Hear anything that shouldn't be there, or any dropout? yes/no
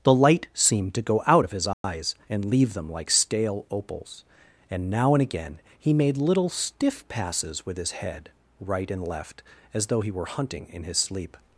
yes